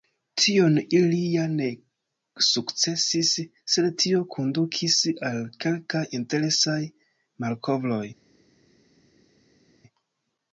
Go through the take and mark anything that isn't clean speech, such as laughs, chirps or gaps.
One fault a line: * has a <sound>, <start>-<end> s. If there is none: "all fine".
all fine